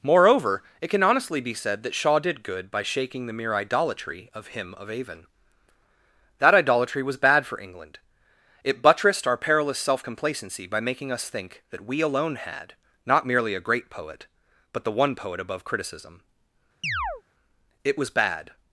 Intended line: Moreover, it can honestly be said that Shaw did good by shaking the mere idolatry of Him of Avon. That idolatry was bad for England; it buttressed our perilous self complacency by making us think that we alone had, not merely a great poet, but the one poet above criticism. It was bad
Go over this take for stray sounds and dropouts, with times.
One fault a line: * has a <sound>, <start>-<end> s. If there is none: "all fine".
* has a chirp, 16.8-17.2 s